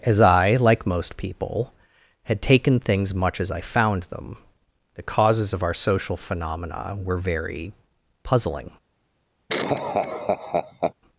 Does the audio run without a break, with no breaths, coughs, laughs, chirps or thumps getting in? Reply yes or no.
no